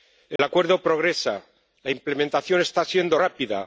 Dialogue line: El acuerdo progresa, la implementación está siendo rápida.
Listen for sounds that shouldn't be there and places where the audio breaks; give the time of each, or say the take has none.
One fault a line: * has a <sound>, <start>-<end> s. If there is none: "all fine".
* has a dropout, 0.4-0.4 s